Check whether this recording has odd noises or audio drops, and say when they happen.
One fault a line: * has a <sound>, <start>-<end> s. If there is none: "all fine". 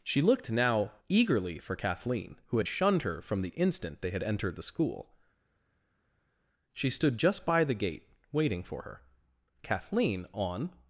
all fine